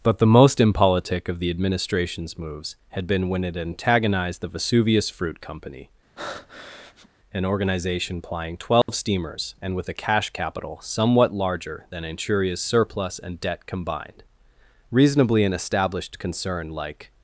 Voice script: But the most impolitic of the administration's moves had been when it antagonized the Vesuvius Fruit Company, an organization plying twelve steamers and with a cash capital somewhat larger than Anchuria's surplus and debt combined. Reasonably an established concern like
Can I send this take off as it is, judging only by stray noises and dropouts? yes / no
no